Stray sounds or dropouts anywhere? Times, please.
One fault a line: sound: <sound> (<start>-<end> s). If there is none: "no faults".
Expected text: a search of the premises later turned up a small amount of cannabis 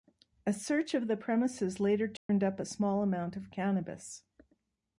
sound: dropout (2.2-2.3 s)